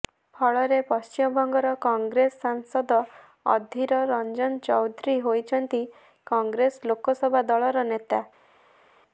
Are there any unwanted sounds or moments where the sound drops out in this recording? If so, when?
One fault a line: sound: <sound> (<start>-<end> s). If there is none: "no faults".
no faults